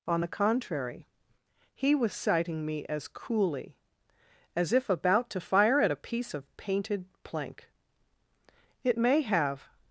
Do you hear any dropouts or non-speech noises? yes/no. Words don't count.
no